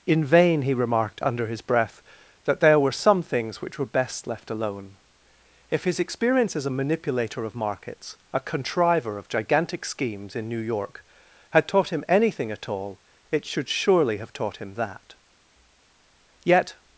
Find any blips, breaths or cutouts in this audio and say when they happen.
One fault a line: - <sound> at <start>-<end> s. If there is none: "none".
none